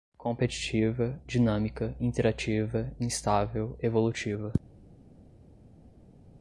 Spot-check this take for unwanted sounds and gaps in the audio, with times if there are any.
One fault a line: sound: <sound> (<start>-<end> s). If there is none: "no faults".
no faults